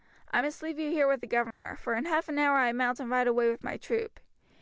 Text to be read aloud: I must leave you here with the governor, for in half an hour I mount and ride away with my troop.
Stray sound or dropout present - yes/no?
yes